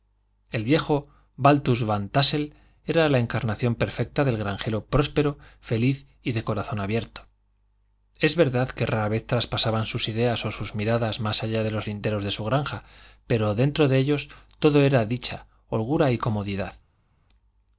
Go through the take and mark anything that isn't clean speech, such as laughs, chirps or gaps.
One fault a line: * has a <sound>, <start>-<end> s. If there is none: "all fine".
all fine